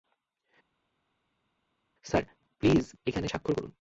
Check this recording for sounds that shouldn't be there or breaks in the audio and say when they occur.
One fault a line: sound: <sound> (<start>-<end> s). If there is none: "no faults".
no faults